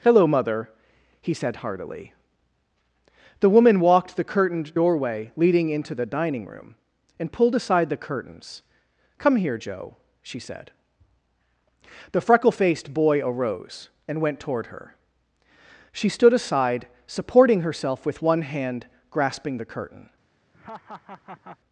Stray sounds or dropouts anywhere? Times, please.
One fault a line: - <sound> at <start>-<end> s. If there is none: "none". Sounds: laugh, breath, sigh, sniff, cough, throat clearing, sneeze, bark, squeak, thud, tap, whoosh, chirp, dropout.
- laugh at 20.5-21.6 s